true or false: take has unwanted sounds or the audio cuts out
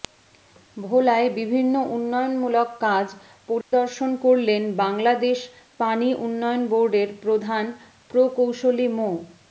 true